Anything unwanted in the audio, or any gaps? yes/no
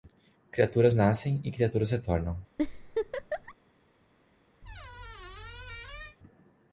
yes